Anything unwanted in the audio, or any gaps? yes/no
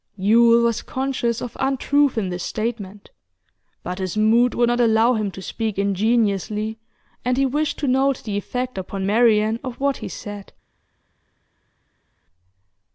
no